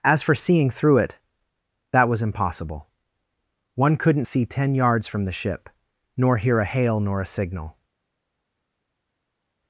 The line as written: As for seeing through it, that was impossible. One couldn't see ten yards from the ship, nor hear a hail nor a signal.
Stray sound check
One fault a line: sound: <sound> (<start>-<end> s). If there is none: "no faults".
no faults